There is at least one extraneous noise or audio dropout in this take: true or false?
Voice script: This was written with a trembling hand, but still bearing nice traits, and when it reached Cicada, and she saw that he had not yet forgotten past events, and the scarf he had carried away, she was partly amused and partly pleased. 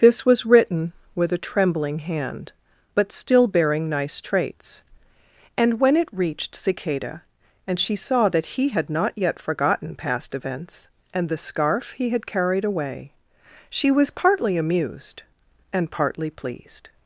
false